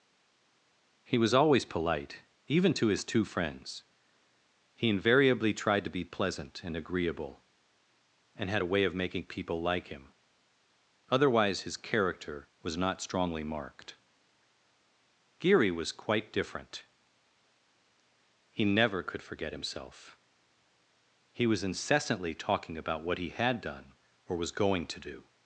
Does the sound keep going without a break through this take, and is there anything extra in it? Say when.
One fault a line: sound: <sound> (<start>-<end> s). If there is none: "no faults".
no faults